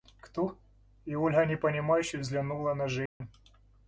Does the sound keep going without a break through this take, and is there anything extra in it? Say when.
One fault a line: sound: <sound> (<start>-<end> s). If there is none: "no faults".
sound: dropout (3.1-3.2 s)